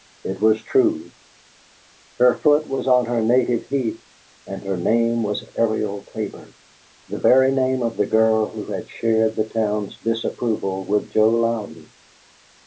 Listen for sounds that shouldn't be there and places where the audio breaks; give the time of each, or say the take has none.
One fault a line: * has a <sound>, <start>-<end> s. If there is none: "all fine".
all fine